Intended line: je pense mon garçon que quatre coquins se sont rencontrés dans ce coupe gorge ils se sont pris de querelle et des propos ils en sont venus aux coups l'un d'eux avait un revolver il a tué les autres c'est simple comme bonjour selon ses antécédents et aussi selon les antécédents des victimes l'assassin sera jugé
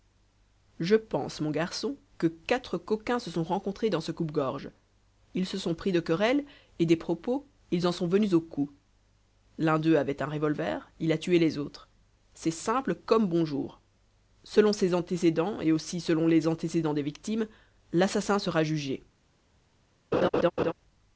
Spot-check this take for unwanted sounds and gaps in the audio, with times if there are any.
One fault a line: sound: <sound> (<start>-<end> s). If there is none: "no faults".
sound: laugh (20.1-20.7 s)